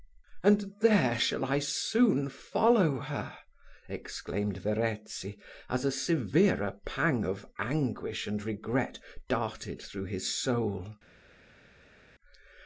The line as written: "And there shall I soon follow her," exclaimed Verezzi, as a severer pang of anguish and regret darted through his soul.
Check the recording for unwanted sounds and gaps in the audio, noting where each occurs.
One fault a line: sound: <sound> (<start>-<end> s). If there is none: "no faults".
no faults